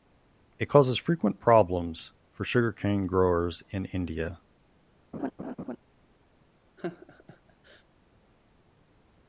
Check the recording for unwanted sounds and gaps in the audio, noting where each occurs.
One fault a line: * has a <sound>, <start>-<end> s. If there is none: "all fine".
* has a laugh, 5.1-5.8 s
* has a laugh, 6.8-7.8 s